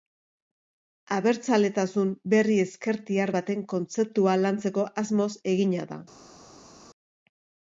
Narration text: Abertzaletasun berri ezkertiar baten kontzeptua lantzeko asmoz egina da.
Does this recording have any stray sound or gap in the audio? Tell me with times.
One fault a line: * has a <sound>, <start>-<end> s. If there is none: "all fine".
all fine